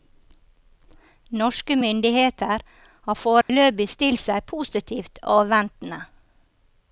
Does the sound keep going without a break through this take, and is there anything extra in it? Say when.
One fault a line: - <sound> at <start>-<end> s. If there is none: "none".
- dropout at 3.4-3.5 s